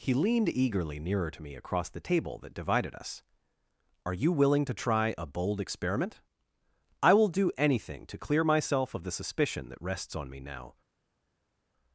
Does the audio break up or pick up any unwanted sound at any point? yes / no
no